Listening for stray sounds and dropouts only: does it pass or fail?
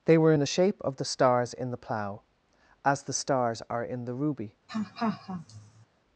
fail